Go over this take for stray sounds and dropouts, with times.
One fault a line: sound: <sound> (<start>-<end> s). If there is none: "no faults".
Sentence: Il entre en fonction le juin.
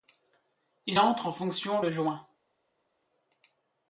no faults